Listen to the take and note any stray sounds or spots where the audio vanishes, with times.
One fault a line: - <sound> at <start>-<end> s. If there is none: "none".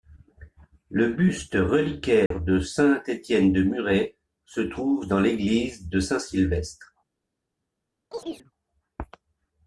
- dropout at 2.3-2.3 s
- chirp at 8.1-8.5 s